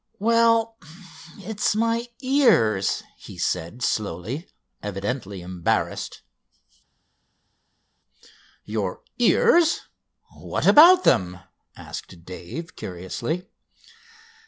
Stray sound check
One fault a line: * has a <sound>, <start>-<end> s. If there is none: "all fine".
all fine